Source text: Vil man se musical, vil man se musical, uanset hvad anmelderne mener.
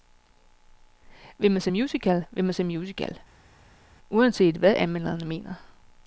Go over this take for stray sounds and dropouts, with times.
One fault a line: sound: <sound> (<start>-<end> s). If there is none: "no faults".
no faults